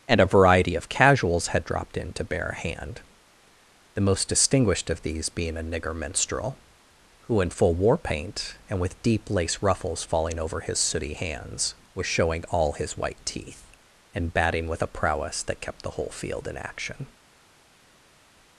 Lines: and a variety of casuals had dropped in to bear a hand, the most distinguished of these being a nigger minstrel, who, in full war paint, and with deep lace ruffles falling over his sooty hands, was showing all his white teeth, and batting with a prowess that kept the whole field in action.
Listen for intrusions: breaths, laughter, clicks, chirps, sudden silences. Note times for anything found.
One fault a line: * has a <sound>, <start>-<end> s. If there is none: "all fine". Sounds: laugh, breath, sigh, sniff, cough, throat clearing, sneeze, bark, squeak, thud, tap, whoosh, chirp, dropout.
all fine